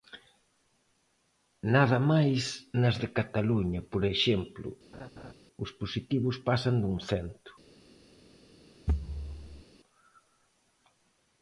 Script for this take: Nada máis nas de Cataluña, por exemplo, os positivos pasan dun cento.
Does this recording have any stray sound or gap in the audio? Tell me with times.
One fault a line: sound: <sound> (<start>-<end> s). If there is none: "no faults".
sound: laugh (4.9-5.3 s)
sound: thud (8.9-9.6 s)